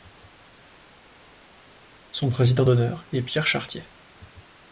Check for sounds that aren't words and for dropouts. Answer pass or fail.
pass